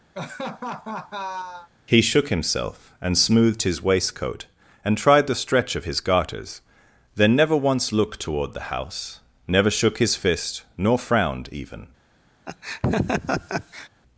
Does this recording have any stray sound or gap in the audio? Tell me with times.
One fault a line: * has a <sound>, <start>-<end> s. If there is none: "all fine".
* has a laugh, 0.1-1.7 s
* has a laugh, 12.5-13.9 s